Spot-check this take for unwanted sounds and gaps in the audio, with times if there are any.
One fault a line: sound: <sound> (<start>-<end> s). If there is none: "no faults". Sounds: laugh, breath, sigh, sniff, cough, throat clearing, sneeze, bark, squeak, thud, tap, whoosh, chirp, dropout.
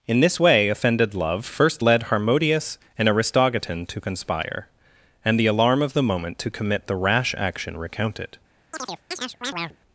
sound: chirp (8.7-9.8 s)